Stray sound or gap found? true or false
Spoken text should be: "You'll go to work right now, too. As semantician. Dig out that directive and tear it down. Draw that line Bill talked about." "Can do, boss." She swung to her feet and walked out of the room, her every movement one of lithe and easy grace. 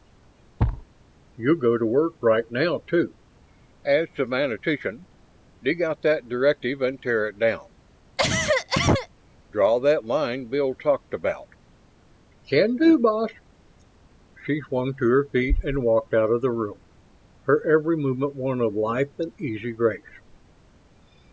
true